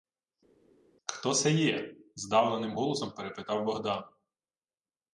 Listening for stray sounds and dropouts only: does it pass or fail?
pass